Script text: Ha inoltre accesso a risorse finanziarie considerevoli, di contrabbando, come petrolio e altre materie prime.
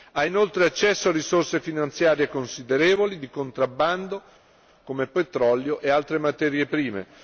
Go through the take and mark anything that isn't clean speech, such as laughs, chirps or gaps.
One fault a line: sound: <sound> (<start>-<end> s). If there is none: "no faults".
no faults